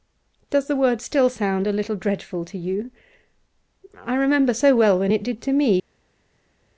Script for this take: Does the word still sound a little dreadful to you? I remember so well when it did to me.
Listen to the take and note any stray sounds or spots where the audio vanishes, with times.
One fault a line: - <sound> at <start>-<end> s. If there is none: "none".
none